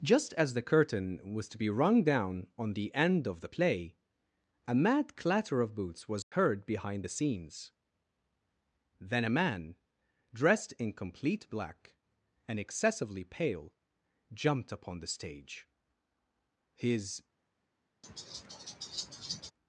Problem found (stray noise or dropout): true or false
true